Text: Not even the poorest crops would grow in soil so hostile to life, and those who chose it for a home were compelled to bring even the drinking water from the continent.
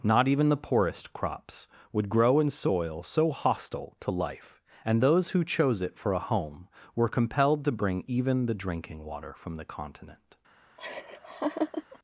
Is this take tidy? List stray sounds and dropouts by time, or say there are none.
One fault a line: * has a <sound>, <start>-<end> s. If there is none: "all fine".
* has a laugh, 10.8-12.0 s